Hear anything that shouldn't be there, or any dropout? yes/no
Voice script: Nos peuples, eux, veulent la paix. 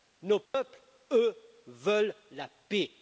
yes